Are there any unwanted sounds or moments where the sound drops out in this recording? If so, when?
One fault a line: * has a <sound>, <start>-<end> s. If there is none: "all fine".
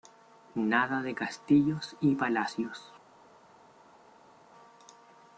all fine